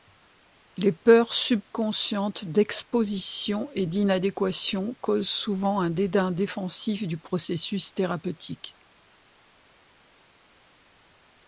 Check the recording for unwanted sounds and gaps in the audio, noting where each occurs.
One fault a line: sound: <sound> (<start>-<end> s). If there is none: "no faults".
no faults